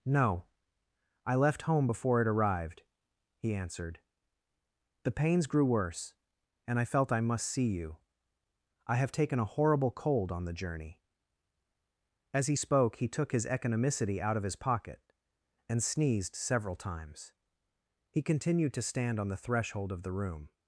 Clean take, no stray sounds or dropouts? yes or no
yes